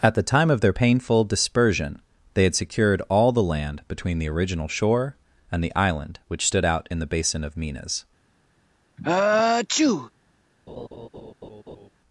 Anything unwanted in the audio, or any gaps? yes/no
yes